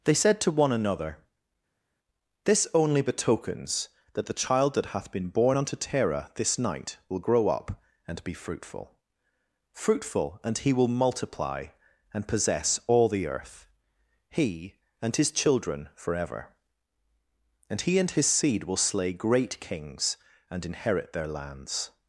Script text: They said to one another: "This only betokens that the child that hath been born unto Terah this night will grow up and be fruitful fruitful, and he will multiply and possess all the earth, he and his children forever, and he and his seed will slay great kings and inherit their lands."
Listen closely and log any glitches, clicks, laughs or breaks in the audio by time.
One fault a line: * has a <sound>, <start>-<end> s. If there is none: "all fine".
all fine